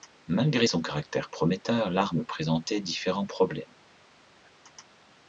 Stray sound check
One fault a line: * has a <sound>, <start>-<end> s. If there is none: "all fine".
all fine